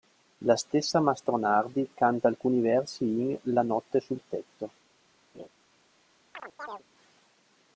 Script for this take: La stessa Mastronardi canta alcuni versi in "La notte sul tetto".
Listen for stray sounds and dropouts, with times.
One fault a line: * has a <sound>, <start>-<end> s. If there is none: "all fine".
* has a laugh, 5.3-5.5 s
* has a chirp, 6.3-6.8 s